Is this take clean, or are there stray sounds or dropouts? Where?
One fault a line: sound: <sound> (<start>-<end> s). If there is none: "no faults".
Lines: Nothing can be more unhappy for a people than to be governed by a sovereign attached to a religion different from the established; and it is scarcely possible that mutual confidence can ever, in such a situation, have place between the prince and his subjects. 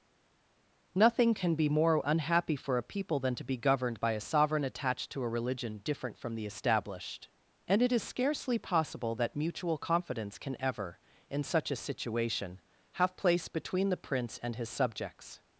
no faults